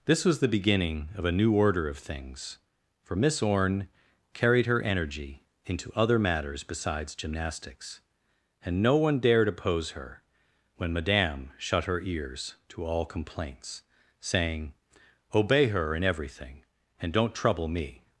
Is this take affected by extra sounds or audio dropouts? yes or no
no